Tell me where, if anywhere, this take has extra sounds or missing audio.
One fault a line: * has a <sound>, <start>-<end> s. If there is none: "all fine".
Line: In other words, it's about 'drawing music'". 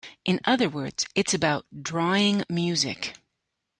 all fine